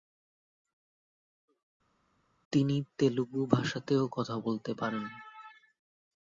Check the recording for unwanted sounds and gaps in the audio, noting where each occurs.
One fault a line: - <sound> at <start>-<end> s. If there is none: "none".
none